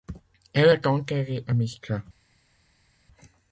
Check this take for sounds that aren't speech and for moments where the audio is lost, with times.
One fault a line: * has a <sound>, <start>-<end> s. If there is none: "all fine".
all fine